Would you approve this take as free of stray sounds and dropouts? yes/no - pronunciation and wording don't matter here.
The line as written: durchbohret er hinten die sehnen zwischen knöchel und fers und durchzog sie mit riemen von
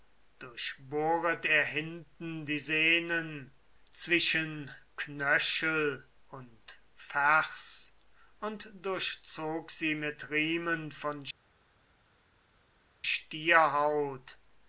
yes